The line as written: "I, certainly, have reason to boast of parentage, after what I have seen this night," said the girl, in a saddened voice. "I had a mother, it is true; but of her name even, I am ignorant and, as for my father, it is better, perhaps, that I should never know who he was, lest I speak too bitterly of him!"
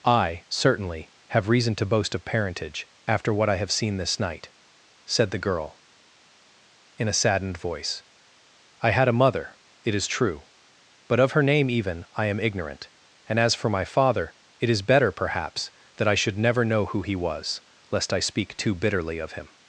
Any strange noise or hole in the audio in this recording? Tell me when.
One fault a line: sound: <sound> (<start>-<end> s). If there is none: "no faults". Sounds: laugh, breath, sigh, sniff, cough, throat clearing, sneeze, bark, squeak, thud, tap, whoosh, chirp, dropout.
no faults